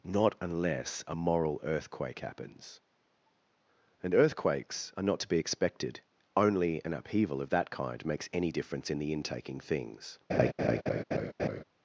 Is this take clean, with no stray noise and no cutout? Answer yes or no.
no